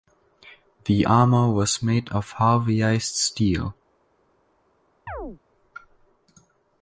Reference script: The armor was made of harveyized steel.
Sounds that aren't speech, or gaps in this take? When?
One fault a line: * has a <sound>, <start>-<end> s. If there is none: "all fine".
* has a chirp, 5.1-5.4 s